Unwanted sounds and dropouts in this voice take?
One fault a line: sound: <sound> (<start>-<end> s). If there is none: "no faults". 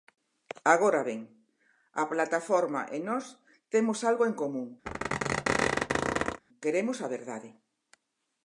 sound: squeak (4.9-6.4 s)